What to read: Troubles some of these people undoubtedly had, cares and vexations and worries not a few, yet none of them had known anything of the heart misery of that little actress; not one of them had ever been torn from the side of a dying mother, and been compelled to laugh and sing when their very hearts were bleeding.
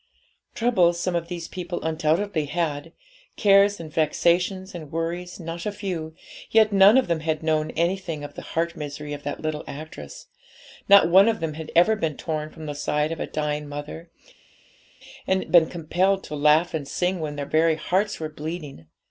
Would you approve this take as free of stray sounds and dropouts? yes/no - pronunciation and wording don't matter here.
yes